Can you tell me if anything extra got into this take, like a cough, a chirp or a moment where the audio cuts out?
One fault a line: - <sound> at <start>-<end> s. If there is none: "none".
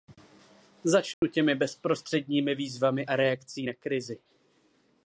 - dropout at 1.1-1.2 s